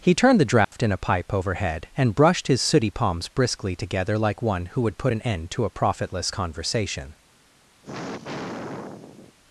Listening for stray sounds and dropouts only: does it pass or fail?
fail